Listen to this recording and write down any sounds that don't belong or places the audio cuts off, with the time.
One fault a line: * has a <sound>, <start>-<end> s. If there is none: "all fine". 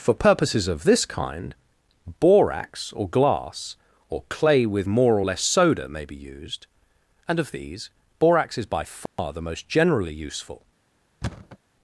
* has a dropout, 9.1-9.2 s
* has a thud, 11.2-11.6 s